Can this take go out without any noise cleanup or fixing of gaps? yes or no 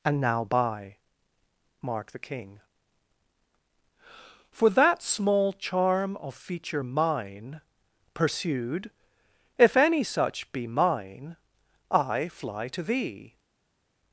yes